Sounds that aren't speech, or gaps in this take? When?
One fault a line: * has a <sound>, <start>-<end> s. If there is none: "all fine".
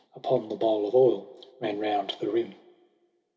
all fine